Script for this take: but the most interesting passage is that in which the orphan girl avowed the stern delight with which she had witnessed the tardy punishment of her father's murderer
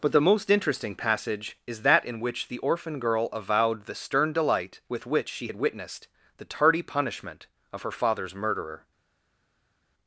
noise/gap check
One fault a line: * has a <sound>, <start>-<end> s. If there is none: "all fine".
all fine